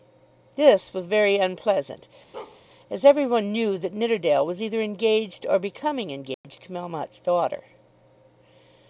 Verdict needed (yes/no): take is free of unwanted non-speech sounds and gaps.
no